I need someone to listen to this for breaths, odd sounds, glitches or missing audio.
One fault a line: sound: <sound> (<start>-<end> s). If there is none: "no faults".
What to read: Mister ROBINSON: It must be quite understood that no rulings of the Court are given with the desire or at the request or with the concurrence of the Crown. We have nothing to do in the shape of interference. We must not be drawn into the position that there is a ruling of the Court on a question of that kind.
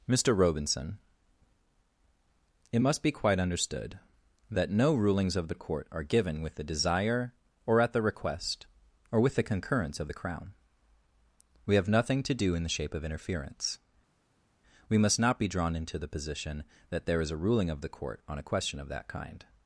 no faults